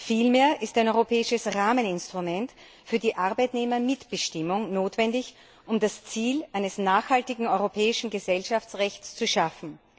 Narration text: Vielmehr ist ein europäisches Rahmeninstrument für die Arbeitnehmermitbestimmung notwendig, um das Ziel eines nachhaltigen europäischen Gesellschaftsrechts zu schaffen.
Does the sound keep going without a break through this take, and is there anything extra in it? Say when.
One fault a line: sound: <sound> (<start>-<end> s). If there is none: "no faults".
no faults